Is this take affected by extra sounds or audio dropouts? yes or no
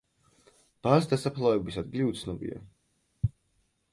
no